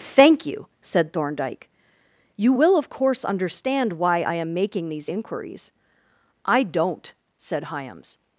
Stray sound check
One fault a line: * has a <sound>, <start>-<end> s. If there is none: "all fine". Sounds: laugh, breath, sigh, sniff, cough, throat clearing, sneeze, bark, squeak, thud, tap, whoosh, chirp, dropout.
all fine